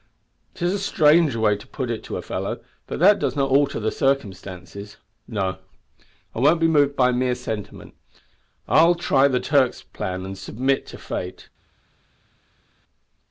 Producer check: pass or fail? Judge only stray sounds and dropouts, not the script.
pass